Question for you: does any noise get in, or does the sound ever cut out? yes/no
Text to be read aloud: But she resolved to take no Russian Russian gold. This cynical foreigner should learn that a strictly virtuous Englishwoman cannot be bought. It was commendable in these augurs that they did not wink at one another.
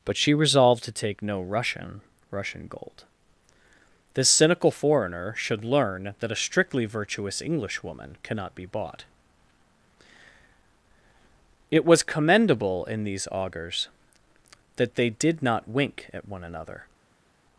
no